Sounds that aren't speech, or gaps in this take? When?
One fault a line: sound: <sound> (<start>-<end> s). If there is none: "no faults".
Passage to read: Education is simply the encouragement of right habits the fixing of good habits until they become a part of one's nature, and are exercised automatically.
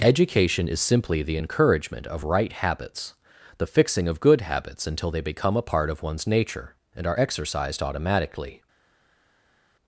no faults